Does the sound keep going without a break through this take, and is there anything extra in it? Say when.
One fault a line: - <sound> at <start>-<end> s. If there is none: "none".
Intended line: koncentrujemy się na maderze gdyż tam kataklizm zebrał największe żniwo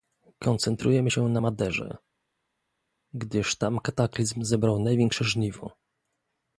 none